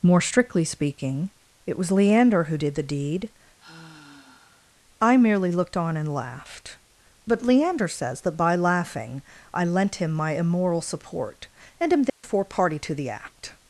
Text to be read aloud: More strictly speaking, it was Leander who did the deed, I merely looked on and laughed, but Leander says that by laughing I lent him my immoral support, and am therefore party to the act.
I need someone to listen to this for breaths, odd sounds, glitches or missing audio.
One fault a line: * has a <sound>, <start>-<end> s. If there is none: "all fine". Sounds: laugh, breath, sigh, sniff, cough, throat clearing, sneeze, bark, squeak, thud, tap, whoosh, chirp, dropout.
* has a sigh, 3.6-4.7 s
* has a dropout, 12.1-12.2 s